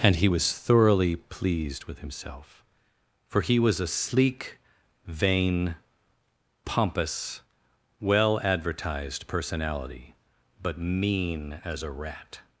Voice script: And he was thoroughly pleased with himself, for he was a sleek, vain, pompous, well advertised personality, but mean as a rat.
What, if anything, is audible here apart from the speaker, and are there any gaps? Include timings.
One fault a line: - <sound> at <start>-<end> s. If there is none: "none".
none